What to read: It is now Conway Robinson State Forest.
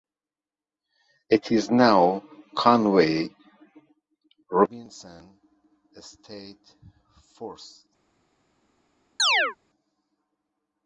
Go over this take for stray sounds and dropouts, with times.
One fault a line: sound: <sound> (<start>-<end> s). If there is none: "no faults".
sound: chirp (9.2-9.6 s)